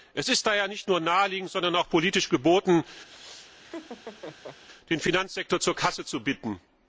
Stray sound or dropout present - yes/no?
yes